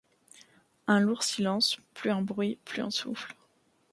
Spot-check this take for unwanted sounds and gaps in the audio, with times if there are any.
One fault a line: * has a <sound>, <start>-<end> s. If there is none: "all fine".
all fine